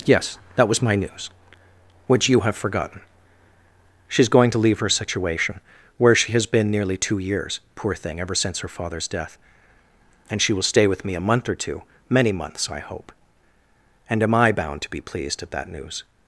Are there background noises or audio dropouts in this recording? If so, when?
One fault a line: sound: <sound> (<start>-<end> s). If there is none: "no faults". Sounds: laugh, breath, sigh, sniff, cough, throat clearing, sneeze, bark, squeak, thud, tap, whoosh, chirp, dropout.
no faults